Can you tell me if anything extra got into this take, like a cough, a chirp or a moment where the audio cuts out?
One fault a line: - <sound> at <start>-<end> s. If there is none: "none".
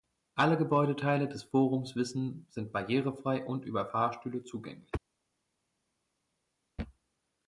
none